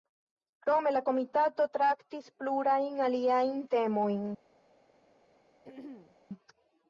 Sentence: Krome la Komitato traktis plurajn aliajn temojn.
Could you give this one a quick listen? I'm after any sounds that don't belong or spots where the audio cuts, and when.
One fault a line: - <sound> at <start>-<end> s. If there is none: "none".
- throat clearing at 5.6-6.2 s